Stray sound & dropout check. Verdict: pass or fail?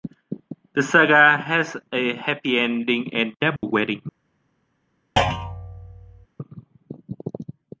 fail